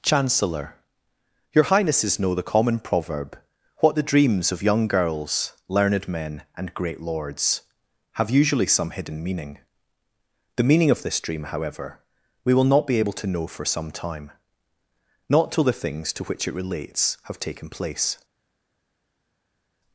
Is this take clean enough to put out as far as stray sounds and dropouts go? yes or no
yes